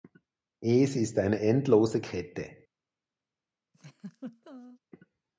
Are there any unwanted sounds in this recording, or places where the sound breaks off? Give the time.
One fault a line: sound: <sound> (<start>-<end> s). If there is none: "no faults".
sound: laugh (3.7-4.8 s)